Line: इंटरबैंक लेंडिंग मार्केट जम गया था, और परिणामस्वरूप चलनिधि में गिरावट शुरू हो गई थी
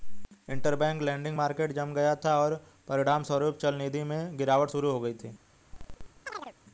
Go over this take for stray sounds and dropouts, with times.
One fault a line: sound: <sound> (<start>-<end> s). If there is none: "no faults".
sound: chirp (5.7-6.5 s)